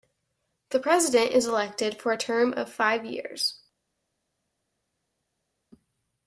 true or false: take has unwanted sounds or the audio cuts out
false